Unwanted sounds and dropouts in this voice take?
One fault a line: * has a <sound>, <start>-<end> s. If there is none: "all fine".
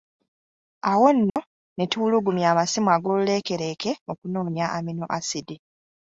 * has a dropout, 1.3-1.4 s